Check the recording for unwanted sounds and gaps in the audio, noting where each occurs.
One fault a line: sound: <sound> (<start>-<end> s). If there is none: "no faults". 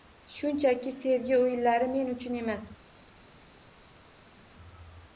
no faults